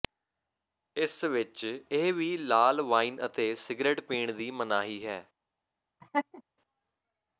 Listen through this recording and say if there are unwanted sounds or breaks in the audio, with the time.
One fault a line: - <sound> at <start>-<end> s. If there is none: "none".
- laugh at 6.0-6.4 s